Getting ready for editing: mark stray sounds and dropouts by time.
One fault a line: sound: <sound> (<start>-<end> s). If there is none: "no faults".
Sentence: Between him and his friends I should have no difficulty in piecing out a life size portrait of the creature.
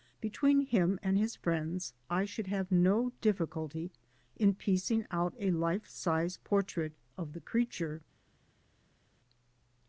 no faults